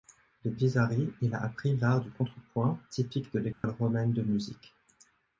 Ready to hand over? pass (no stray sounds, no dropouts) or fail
fail